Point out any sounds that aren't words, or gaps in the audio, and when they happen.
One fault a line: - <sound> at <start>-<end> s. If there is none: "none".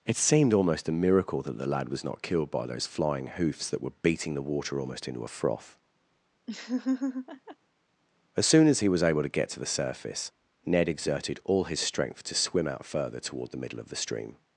- laugh at 6.5-7.6 s